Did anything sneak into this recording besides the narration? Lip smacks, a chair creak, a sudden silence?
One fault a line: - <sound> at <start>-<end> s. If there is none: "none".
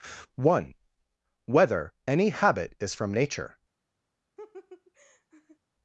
- laugh at 4.4-5.6 s